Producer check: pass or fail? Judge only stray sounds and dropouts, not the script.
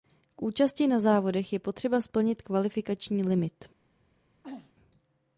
fail